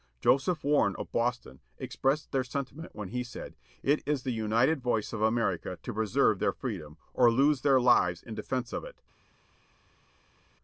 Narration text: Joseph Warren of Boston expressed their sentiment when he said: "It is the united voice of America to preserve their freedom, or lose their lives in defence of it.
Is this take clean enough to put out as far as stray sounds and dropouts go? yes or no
yes